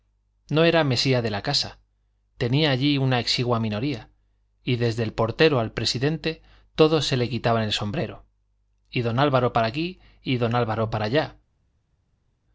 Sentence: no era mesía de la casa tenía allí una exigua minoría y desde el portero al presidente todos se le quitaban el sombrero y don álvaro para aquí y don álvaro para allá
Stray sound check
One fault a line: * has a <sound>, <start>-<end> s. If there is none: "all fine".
all fine